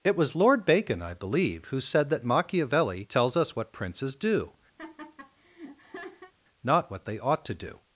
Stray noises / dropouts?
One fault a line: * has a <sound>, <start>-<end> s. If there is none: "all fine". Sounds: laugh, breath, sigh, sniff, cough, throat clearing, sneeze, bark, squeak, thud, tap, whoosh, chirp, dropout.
* has a laugh, 4.8-6.3 s